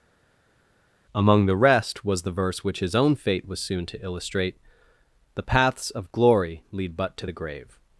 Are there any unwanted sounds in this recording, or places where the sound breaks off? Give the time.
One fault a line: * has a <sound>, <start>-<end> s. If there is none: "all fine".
all fine